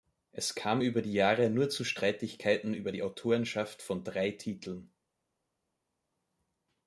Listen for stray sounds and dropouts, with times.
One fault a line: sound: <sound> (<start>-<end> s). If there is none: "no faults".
no faults